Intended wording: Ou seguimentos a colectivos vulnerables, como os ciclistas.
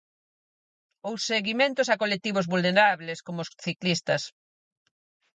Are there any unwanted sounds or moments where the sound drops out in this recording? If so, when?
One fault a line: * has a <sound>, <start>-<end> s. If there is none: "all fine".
all fine